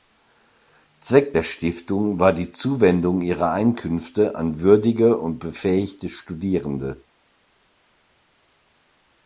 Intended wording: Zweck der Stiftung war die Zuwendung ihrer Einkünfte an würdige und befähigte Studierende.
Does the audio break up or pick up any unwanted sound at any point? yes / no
no